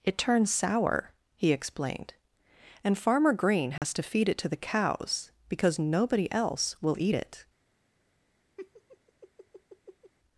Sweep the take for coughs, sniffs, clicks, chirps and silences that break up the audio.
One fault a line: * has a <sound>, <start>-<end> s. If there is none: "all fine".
* has a dropout, 3.8-3.8 s
* has a laugh, 8.6-10.1 s